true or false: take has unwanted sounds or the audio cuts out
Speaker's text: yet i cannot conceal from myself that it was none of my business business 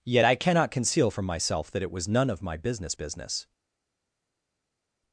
false